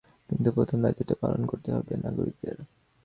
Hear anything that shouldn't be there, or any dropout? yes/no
no